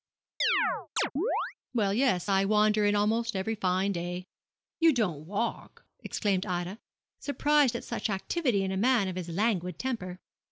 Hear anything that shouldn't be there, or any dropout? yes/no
yes